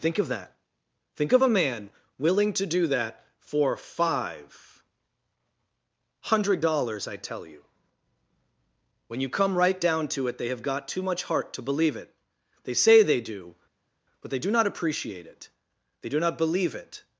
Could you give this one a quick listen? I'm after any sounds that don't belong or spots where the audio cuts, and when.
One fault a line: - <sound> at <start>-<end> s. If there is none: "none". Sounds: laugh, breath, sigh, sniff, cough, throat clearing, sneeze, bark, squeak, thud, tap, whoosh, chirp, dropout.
none